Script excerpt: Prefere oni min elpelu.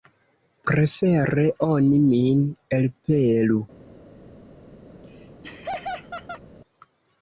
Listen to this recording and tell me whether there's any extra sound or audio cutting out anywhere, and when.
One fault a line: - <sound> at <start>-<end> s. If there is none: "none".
- laugh at 4.9-6.4 s